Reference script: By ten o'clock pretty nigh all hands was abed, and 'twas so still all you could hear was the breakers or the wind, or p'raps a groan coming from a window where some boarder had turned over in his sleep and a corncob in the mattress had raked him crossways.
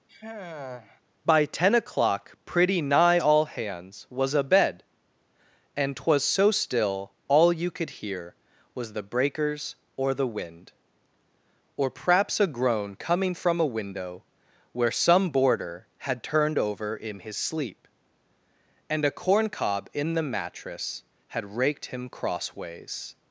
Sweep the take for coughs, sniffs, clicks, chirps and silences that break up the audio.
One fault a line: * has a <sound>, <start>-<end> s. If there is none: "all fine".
* has a sigh, 0.1-1.0 s